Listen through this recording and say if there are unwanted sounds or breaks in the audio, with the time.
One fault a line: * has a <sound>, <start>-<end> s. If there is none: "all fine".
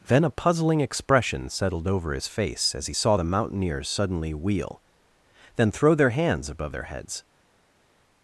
all fine